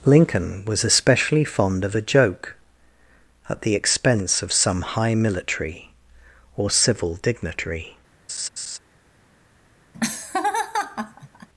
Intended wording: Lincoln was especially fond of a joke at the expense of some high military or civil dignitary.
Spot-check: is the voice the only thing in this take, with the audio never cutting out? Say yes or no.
no